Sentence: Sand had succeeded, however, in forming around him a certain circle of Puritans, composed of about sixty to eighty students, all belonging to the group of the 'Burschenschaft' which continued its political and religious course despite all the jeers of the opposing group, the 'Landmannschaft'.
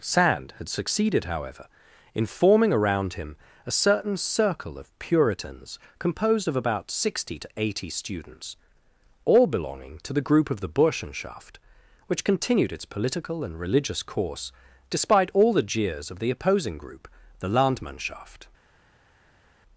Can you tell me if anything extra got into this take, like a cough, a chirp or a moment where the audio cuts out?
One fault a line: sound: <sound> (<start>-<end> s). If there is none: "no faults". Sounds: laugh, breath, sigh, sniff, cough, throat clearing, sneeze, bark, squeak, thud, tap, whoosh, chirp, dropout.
no faults